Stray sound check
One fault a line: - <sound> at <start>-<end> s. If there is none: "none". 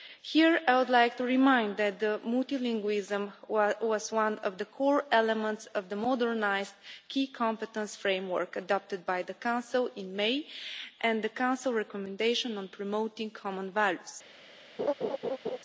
- laugh at 14.8-15.6 s